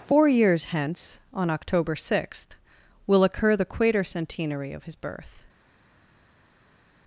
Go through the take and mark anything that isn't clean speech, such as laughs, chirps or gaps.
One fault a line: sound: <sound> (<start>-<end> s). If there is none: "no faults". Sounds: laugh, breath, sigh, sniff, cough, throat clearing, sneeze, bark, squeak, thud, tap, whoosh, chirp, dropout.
no faults